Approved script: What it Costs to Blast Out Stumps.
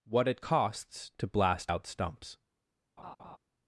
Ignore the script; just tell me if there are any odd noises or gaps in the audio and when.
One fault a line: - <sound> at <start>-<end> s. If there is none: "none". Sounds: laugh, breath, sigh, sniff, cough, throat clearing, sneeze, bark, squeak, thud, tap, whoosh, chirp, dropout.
- laugh at 3.0-3.4 s